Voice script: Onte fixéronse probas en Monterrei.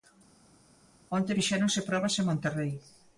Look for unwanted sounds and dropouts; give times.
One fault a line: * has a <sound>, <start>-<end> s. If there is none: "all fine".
all fine